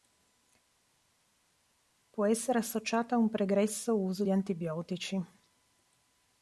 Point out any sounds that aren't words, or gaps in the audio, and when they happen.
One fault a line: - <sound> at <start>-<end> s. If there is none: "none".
none